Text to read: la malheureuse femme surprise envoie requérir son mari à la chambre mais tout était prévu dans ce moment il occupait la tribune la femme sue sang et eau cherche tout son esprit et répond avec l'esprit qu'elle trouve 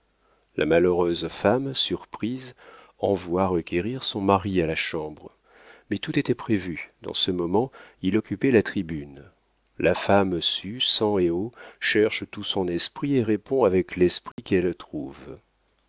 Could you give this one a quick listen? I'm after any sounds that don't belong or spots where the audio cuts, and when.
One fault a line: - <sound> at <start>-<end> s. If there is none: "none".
- dropout at 14.3-14.4 s